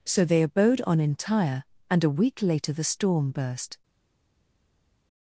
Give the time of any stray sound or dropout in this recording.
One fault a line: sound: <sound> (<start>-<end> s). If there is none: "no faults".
no faults